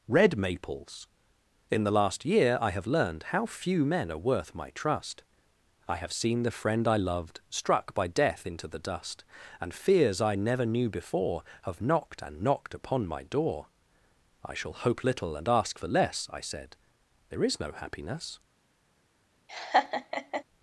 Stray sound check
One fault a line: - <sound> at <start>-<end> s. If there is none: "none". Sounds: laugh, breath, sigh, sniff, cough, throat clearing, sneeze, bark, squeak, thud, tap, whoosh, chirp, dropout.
- laugh at 19.5-20.4 s